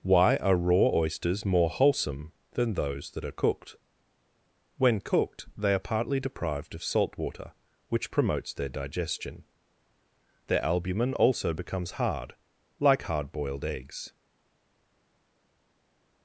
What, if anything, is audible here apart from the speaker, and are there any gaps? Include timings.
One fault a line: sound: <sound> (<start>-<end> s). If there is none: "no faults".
no faults